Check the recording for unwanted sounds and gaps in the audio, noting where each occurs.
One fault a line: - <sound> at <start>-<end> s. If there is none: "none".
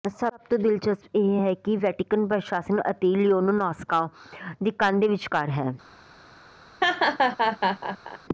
- laugh at 6.8-8.2 s